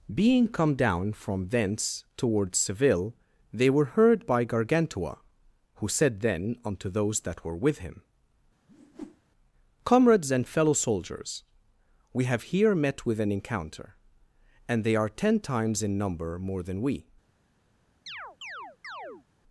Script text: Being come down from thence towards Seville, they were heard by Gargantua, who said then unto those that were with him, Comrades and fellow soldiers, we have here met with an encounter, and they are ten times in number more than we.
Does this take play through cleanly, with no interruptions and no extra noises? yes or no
no